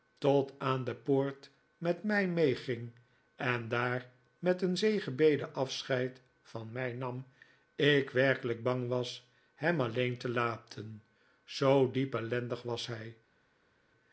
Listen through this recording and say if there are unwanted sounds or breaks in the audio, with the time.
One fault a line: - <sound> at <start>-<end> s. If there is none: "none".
none